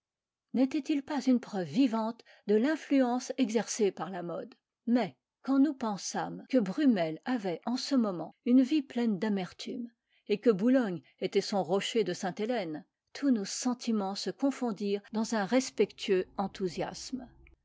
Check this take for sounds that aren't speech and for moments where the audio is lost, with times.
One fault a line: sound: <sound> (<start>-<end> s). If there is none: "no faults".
no faults